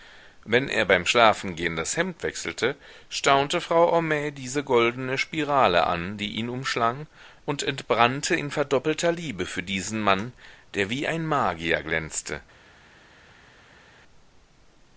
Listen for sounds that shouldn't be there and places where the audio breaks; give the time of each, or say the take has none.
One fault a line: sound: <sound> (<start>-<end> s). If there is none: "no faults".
no faults